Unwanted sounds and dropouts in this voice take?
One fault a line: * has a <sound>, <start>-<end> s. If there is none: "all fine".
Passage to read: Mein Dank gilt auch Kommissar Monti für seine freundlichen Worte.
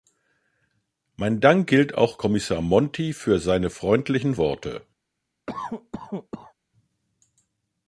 * has a cough, 5.5-6.5 s